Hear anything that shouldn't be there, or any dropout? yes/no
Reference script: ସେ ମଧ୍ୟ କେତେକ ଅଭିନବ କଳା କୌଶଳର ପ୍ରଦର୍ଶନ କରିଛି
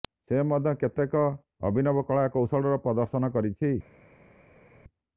no